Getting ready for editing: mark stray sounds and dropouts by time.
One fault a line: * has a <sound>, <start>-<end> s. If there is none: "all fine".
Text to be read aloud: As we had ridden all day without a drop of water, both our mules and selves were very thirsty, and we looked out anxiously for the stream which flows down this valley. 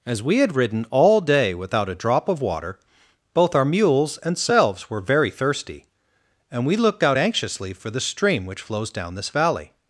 all fine